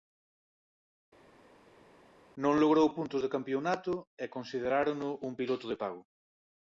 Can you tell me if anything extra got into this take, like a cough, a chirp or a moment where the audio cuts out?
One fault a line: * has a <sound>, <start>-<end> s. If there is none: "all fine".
all fine